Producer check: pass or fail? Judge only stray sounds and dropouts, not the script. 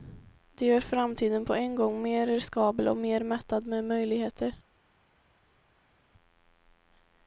pass